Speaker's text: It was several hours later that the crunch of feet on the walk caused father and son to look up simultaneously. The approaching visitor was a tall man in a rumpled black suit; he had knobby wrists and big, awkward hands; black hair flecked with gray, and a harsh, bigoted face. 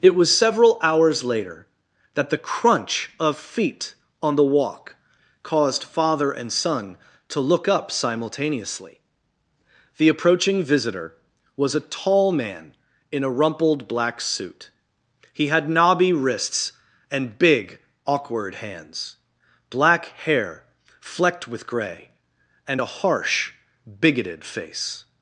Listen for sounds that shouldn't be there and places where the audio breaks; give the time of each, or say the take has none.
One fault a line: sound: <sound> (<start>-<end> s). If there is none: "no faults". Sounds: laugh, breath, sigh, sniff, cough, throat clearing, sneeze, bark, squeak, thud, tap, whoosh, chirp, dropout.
no faults